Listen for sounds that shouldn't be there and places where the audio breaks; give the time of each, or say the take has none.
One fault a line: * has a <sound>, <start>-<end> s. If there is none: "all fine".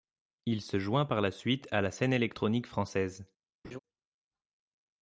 * has a laugh, 3.6-3.8 s